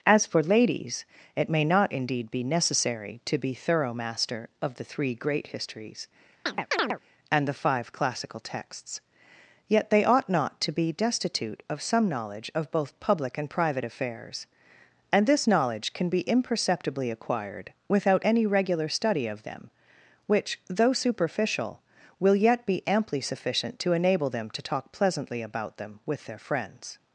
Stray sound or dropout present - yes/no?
yes